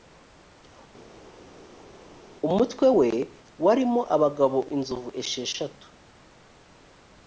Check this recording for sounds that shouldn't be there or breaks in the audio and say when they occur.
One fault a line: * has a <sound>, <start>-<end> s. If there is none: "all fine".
all fine